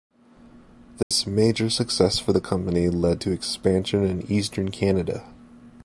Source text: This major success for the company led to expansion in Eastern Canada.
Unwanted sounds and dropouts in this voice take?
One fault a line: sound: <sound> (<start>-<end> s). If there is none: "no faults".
sound: dropout (1.0-1.1 s)